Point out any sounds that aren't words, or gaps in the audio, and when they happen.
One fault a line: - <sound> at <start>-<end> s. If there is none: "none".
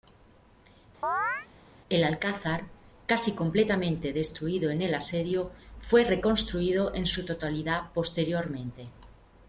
- chirp at 1.0-1.5 s